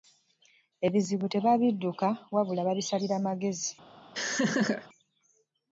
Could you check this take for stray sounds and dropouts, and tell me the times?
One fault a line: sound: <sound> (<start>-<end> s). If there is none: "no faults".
sound: laugh (4.1-4.9 s)